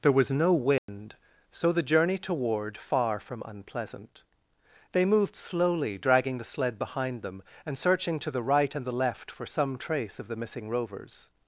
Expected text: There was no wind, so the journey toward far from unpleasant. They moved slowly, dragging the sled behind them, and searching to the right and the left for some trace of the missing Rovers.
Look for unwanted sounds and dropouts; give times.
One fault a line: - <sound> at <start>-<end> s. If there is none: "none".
- dropout at 0.8-0.9 s